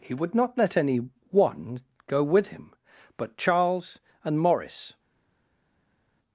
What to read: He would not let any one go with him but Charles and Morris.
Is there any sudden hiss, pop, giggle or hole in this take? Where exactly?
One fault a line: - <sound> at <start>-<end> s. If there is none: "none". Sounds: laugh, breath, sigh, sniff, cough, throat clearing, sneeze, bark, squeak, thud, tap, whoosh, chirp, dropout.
none